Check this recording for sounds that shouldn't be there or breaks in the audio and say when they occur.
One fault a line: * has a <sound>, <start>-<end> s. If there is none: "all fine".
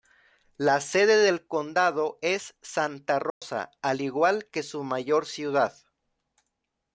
* has a dropout, 3.3-3.4 s